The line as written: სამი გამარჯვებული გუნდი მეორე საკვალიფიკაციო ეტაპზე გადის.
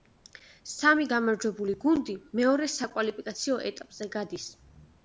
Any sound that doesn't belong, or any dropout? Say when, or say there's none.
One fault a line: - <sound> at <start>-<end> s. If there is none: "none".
none